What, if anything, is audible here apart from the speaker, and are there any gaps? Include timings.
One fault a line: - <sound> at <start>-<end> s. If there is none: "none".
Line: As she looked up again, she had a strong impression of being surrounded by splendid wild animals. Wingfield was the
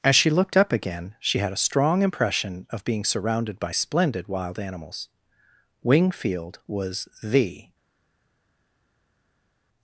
none